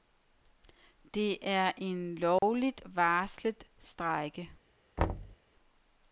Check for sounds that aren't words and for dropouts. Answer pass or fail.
fail